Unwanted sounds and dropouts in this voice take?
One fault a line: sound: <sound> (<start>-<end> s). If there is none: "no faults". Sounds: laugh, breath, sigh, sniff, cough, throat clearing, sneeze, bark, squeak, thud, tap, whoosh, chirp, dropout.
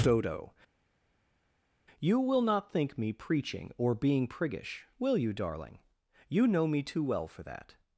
no faults